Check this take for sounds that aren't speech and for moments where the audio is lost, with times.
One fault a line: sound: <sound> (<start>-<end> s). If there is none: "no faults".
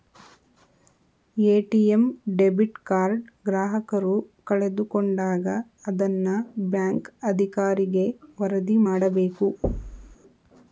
sound: thud (9.6-10.2 s)